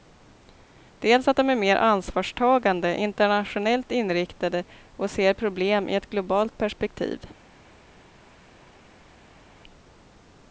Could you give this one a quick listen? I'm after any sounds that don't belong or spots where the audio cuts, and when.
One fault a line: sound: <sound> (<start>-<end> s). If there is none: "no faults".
no faults